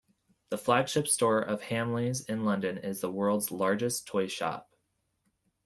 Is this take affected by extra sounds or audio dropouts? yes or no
no